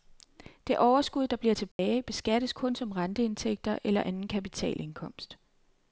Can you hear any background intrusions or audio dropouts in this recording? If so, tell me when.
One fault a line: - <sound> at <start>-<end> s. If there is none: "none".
- dropout at 1.7-1.8 s